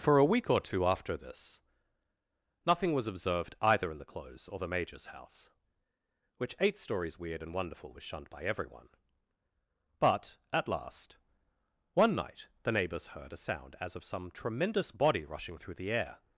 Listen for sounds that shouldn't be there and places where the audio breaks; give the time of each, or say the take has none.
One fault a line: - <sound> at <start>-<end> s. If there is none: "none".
none